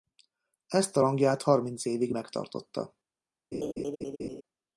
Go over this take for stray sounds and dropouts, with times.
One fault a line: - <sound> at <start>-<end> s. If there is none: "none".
- laugh at 3.5-4.4 s